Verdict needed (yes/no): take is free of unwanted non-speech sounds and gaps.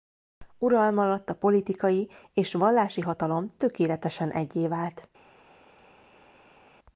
yes